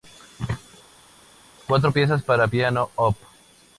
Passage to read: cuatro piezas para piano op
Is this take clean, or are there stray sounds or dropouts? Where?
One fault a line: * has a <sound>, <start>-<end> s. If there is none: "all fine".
all fine